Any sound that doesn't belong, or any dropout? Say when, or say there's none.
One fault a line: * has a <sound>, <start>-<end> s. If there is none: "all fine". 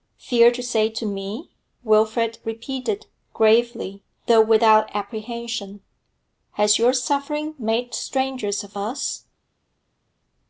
all fine